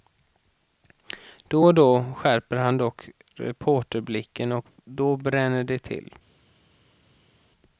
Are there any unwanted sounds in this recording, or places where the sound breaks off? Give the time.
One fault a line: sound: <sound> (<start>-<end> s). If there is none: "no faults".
no faults